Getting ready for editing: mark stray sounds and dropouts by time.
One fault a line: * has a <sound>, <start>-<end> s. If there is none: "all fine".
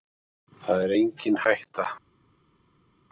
all fine